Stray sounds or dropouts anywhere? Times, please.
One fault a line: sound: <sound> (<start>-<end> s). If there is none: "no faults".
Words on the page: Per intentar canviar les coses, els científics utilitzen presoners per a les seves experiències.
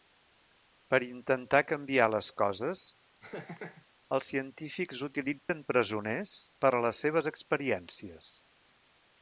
sound: laugh (3.2-3.9 s)
sound: dropout (5.4-5.5 s)